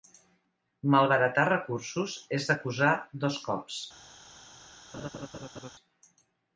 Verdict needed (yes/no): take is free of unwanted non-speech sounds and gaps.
no